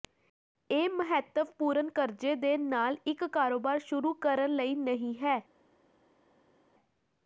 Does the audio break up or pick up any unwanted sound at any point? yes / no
no